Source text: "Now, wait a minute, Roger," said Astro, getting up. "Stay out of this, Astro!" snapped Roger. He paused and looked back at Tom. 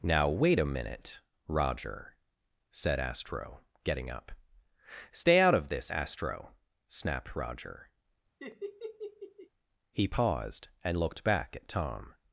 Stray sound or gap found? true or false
true